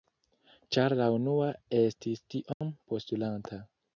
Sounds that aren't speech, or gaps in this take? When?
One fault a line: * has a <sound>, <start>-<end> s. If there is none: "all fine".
* has a dropout, 2.5-2.6 s